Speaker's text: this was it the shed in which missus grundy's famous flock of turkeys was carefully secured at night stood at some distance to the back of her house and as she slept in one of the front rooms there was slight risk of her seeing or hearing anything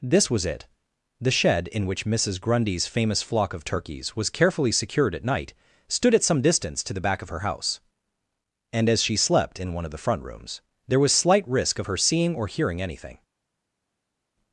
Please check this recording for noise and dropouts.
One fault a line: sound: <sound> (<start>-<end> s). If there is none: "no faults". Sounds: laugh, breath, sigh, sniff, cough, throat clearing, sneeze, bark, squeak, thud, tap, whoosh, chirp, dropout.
no faults